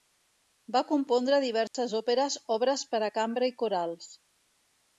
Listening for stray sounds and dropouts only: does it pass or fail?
fail